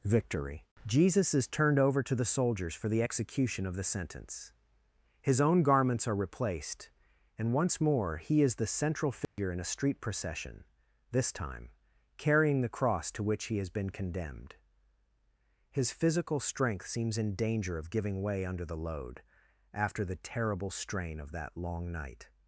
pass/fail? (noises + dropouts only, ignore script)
fail